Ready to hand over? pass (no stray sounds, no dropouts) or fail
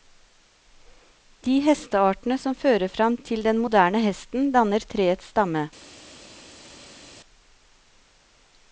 pass